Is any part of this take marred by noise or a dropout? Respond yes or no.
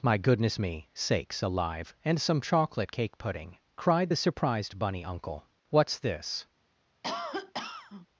yes